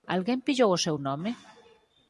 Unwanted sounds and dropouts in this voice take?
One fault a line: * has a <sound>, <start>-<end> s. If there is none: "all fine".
all fine